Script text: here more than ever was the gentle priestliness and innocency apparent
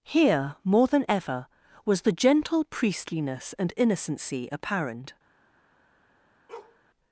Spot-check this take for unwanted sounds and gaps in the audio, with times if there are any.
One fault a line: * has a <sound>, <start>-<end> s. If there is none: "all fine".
* has a bark, 6.5-6.8 s